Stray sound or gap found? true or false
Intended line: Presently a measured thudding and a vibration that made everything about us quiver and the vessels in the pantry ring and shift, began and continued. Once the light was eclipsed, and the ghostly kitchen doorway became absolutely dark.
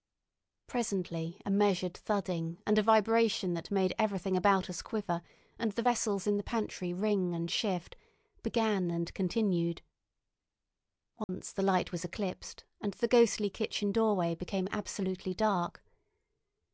true